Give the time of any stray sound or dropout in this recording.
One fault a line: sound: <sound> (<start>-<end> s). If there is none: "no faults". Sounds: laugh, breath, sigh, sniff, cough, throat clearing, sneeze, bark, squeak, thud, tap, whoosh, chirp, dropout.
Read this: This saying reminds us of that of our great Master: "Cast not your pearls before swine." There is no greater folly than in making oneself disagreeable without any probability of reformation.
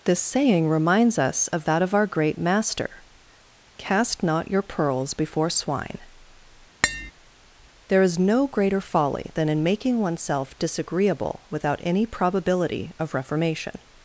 sound: tap (6.8-7.1 s)